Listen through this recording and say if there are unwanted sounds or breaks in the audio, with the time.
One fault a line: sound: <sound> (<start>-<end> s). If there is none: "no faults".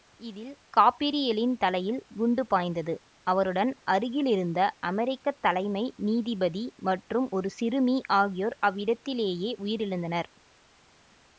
no faults